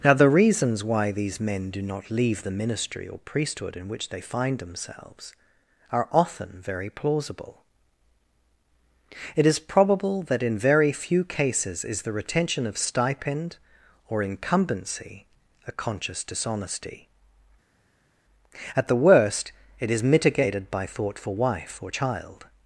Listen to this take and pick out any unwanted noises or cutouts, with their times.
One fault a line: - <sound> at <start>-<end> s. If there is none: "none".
none